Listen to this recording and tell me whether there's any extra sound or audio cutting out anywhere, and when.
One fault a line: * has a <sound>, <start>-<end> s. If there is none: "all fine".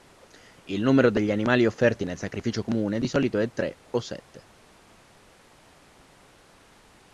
all fine